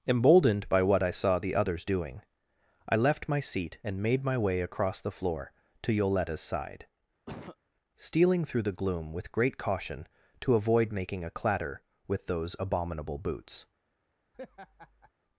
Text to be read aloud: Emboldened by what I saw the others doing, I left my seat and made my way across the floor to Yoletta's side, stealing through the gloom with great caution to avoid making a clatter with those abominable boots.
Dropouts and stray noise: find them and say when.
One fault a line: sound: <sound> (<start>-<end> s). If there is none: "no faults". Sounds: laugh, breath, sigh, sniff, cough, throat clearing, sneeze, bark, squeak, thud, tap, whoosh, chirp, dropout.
sound: cough (7.3-7.6 s)
sound: laugh (14.3-15.1 s)